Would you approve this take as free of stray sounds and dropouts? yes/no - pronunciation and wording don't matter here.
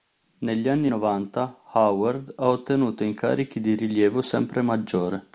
yes